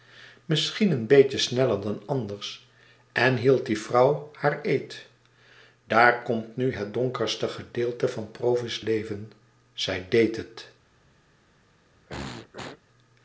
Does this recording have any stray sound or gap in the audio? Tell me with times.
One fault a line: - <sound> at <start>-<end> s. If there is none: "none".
- throat clearing at 12.1-12.8 s